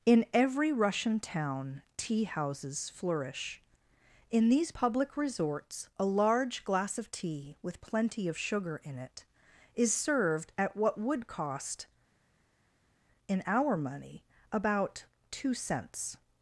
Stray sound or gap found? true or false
false